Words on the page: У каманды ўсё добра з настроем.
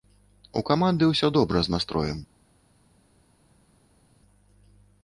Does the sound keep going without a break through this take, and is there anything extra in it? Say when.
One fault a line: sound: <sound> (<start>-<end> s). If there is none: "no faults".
no faults